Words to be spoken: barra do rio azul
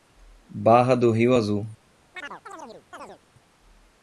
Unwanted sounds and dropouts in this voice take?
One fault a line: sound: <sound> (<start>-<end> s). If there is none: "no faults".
sound: chirp (2.1-3.2 s)